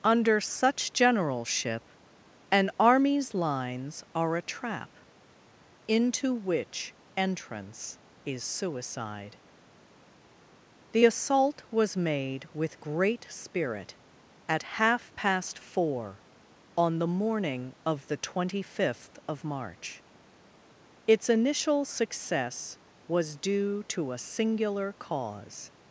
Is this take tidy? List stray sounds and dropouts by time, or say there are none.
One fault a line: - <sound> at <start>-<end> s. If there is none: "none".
none